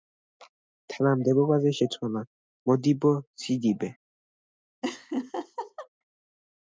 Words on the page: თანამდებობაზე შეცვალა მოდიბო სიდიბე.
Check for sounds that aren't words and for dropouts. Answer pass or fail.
fail